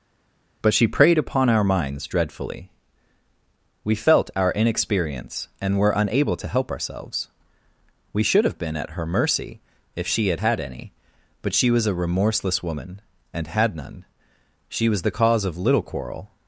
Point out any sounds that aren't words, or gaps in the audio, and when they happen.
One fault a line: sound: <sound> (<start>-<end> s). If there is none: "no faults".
no faults